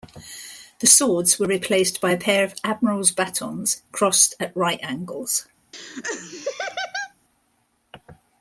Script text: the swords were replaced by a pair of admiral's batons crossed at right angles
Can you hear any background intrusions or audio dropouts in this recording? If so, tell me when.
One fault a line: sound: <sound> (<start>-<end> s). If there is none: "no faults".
sound: laugh (5.7-7.1 s)